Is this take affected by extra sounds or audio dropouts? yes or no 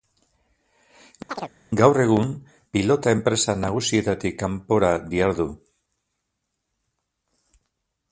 yes